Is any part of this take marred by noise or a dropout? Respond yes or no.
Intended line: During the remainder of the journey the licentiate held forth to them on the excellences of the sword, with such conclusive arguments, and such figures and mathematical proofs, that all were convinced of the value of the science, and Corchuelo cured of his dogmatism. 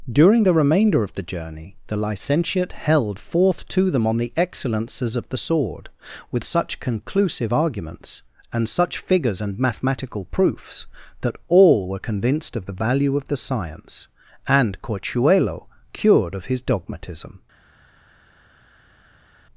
no